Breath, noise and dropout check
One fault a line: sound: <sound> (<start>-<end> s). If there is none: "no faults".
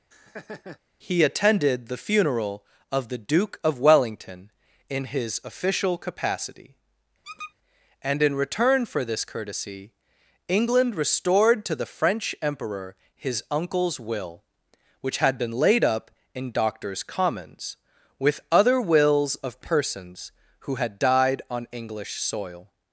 sound: laugh (0.1-0.8 s)
sound: squeak (7.2-7.5 s)